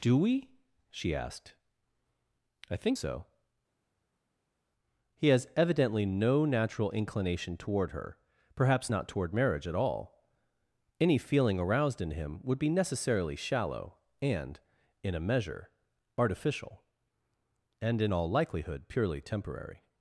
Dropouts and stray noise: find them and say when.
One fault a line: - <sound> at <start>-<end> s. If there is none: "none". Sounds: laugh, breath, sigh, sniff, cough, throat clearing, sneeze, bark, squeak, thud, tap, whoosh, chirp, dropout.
none